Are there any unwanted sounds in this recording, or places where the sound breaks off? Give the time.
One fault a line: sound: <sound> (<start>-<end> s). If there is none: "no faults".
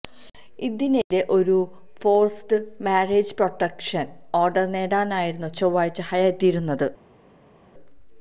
no faults